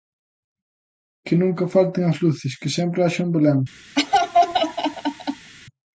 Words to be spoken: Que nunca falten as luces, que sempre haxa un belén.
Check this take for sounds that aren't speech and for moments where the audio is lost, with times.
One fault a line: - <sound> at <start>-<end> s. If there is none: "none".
- laugh at 4.0-5.5 s